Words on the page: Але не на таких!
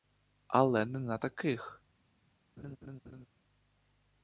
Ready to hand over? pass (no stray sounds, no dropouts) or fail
fail